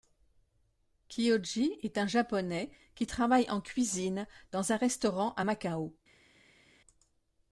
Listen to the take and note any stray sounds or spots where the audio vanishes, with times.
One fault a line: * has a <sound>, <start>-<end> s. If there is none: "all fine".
all fine